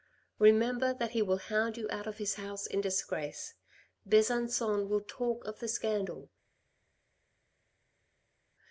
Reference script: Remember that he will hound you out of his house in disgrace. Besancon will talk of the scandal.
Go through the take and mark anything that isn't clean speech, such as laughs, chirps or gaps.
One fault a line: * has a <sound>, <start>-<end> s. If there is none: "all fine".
all fine